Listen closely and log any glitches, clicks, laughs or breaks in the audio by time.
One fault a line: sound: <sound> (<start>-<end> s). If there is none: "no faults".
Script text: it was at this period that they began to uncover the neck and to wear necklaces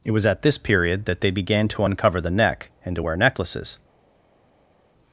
no faults